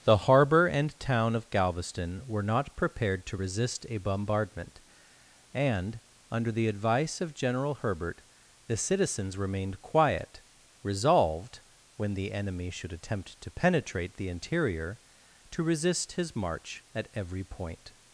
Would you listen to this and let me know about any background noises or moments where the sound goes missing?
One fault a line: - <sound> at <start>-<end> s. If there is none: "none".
none